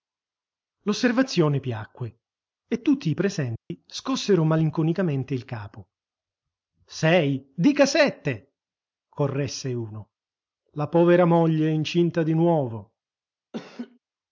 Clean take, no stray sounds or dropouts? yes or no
no